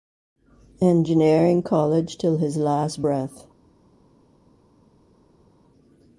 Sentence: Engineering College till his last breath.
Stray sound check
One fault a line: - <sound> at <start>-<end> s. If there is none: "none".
none